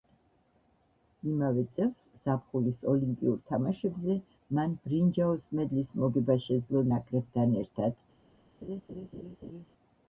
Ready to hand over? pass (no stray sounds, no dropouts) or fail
fail